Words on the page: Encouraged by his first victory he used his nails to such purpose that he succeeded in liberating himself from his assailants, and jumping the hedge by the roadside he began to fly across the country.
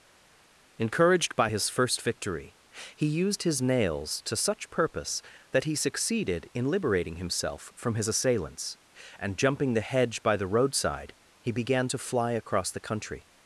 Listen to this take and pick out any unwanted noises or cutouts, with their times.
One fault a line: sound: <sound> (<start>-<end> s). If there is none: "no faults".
no faults